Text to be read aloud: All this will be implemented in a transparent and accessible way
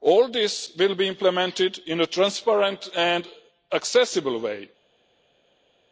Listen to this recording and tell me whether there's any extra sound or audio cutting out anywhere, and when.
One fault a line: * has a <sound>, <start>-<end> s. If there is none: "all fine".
all fine